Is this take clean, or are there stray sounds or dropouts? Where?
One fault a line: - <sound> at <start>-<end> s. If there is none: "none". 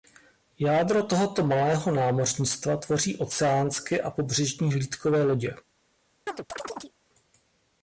- chirp at 6.3-6.9 s